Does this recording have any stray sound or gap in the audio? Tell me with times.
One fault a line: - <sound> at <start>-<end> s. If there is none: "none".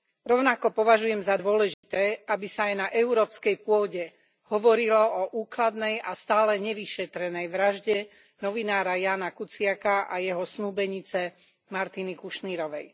- dropout at 1.7-1.8 s